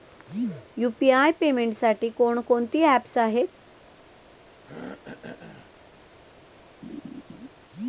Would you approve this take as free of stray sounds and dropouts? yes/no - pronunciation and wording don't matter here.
no